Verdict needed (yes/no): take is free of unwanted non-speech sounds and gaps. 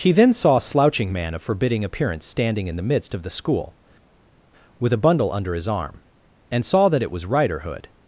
yes